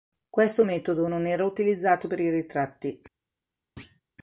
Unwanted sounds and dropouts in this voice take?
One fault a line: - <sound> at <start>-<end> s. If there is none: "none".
- thud at 3.8-4.0 s